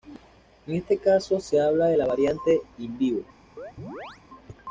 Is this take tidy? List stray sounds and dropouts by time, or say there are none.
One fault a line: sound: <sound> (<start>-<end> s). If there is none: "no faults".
sound: chirp (3.6-4.2 s)